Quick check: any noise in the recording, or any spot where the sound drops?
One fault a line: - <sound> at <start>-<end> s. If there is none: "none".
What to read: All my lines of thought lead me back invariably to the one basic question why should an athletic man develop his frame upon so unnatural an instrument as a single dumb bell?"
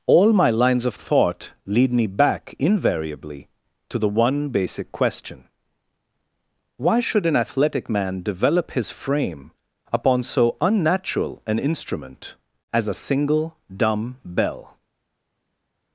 none